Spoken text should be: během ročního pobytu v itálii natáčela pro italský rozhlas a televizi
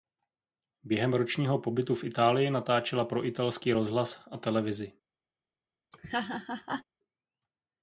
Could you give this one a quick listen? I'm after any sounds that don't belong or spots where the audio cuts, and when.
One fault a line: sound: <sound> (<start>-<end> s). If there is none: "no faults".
sound: laugh (5.9-6.8 s)